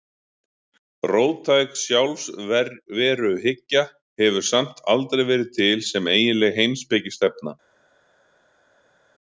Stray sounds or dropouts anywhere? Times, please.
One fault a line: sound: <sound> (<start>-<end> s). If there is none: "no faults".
no faults